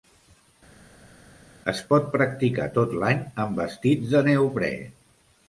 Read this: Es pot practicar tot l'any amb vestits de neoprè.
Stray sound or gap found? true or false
false